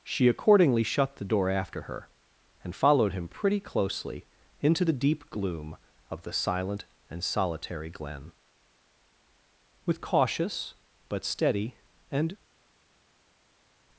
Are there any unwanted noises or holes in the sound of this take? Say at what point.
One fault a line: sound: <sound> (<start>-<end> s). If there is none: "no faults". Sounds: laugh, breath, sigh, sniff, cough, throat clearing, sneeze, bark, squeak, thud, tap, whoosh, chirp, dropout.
no faults